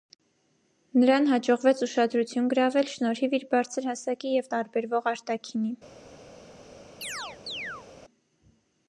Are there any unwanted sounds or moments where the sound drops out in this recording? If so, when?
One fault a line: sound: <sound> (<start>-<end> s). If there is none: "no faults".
sound: chirp (7.0-7.9 s)